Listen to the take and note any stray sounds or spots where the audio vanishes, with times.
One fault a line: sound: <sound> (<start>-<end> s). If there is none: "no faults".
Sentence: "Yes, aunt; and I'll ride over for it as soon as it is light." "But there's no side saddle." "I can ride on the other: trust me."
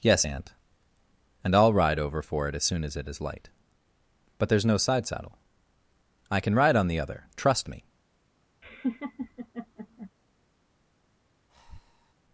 sound: laugh (8.6-10.1 s)
sound: breath (11.5-12.1 s)